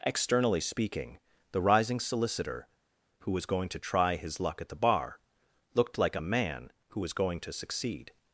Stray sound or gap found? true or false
false